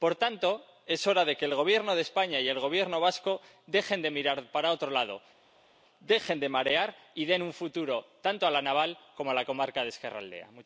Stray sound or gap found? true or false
false